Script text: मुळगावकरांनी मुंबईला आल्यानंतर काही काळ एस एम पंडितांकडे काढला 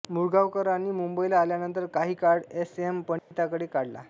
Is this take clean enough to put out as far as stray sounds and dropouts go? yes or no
no